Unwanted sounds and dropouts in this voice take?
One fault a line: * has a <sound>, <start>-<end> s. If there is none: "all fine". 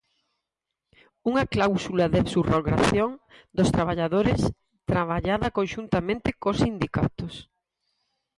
all fine